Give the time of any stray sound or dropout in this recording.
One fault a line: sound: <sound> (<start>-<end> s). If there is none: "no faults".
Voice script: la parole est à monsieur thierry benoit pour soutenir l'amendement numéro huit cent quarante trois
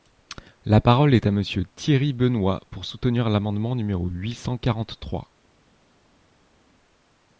no faults